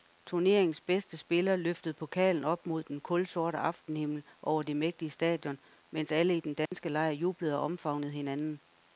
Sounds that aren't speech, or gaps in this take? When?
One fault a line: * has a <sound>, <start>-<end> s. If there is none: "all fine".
* has a dropout, 6.7-6.7 s